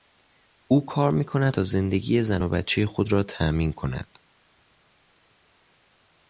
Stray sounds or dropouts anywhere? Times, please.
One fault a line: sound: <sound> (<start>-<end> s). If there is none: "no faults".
no faults